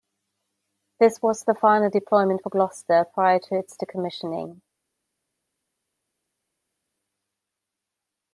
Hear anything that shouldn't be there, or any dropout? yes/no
no